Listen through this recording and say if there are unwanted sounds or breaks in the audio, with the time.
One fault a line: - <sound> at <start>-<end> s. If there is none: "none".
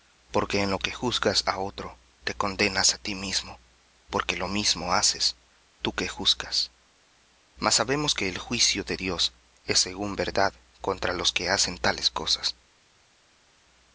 none